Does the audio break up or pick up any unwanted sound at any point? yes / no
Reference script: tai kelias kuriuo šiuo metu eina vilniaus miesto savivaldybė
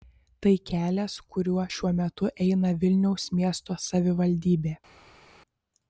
no